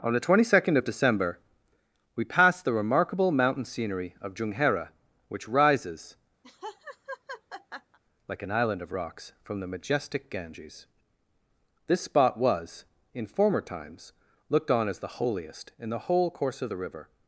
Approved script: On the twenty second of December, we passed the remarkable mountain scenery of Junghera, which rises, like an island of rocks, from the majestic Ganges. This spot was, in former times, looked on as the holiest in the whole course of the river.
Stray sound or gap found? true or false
true